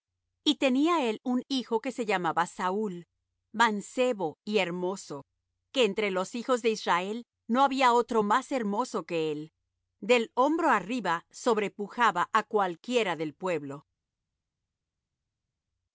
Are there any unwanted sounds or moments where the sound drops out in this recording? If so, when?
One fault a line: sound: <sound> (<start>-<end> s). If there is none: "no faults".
no faults